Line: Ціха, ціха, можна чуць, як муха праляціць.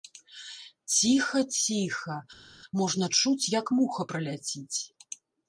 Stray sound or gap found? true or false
false